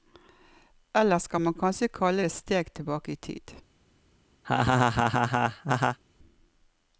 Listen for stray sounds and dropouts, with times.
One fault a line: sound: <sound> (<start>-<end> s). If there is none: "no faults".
sound: laugh (4.4-6.0 s)